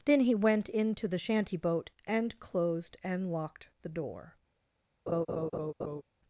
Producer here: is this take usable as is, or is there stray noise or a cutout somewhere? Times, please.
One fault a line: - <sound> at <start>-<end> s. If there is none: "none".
- laugh at 5.1-6.0 s